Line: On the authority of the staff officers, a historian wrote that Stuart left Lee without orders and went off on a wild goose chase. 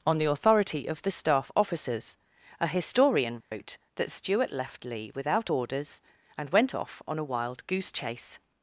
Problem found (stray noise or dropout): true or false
true